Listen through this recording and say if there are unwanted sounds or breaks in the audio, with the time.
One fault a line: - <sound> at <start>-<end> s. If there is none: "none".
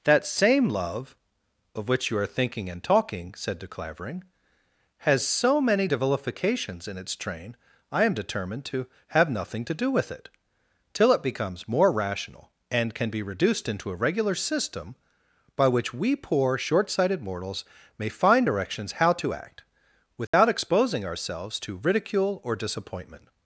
- dropout at 20.3-20.3 s